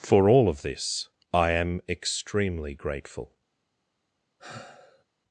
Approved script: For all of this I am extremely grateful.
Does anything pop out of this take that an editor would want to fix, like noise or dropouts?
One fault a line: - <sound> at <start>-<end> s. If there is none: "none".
- sigh at 4.4-5.0 s